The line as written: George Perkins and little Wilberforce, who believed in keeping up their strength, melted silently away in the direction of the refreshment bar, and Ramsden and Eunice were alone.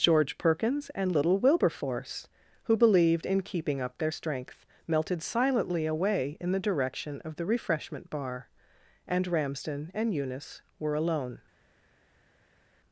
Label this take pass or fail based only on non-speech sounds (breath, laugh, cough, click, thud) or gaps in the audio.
pass